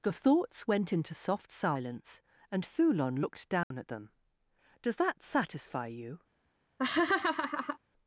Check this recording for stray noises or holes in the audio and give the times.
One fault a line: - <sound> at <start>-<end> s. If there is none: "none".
- dropout at 3.6-3.7 s
- laugh at 6.8-7.8 s